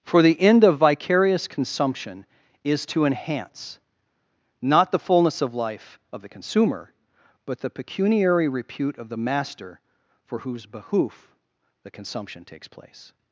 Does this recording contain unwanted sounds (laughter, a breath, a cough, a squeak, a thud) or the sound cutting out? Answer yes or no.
no